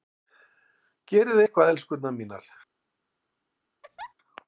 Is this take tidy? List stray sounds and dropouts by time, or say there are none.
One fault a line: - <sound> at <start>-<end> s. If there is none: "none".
- laugh at 3.8-4.1 s